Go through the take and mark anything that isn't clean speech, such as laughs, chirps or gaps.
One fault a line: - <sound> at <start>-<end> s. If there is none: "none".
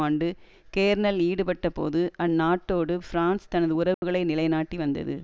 - dropout at 3.9-4.0 s